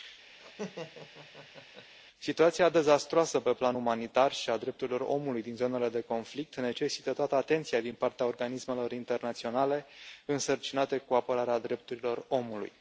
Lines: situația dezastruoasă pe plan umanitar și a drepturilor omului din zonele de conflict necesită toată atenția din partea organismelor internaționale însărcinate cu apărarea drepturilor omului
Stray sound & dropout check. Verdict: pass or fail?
fail